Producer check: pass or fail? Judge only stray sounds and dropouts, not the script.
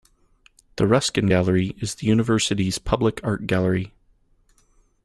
pass